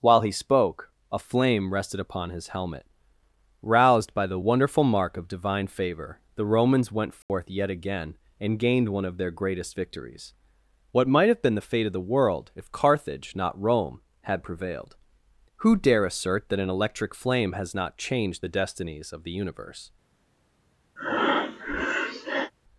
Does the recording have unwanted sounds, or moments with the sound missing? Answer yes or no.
yes